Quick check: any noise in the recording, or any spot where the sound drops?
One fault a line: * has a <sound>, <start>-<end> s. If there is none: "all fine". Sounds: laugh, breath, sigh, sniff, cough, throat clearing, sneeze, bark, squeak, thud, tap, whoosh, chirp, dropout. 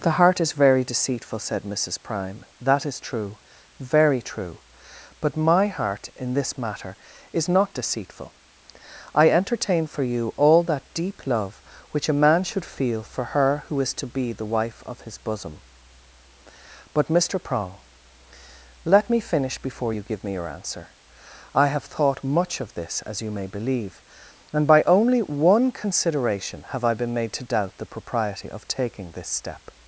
all fine